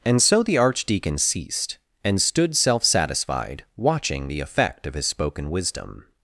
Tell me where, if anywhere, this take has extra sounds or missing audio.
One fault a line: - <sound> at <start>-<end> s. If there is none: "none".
none